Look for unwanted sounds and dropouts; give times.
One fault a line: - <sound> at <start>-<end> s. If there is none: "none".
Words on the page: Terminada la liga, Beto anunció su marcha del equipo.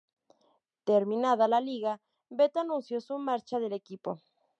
none